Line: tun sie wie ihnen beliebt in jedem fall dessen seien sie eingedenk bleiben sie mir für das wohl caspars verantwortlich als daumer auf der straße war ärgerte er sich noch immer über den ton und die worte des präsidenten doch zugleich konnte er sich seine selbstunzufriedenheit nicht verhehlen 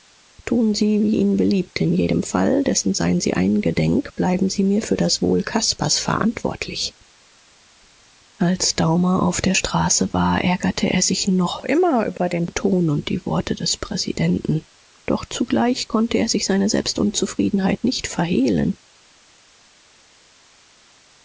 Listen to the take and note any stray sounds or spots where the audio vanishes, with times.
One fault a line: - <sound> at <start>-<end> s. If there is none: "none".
none